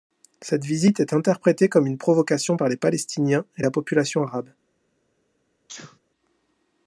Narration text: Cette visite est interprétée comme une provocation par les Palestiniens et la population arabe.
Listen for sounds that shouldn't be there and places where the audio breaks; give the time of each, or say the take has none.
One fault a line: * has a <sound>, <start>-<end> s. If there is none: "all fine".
* has a sneeze, 5.7-6.0 s